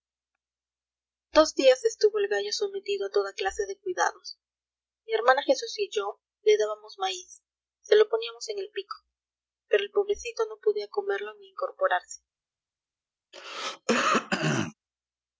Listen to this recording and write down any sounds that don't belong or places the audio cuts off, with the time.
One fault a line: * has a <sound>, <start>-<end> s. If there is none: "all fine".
* has a throat clearing, 13.3-14.7 s